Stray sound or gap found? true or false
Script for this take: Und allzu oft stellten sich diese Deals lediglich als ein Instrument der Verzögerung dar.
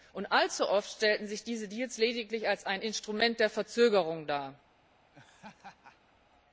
true